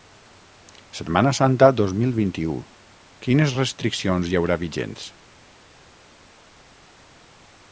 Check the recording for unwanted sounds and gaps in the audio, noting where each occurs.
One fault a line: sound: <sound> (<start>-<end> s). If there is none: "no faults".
no faults